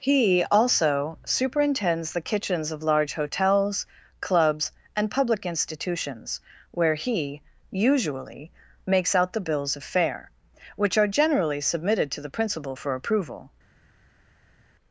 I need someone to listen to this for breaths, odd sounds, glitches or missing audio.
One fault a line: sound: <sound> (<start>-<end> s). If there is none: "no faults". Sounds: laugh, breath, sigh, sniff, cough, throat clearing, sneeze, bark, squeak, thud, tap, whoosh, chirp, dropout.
no faults